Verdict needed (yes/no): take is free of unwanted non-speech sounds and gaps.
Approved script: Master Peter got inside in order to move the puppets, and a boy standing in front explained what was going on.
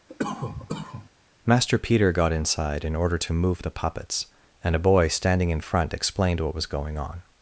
no